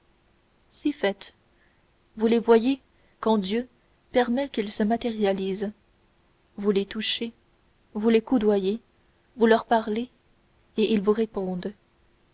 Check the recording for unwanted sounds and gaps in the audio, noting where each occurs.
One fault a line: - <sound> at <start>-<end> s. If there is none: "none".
none